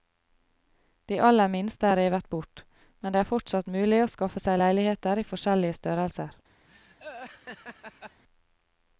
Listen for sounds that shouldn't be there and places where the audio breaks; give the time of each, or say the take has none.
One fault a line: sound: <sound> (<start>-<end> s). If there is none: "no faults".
sound: laugh (6.7-8.2 s)